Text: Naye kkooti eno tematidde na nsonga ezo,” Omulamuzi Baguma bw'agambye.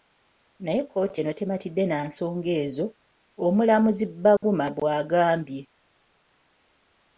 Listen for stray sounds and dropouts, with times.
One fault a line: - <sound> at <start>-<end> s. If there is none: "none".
- dropout at 4.4-4.4 s